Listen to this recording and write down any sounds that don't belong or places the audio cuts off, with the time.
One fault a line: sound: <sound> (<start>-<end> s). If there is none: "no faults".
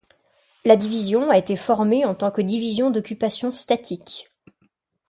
no faults